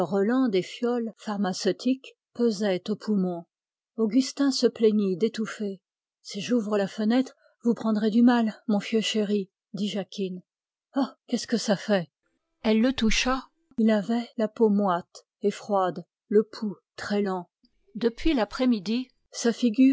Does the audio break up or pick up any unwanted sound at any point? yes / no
no